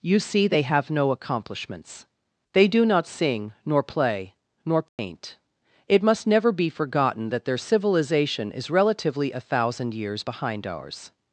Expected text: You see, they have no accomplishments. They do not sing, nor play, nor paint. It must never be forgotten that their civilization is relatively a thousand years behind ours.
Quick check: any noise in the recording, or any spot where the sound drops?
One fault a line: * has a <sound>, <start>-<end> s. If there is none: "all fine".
* has a dropout, 4.9-5.0 s